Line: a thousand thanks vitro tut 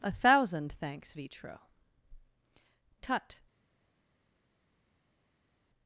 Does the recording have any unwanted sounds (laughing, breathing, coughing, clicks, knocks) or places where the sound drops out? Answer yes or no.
no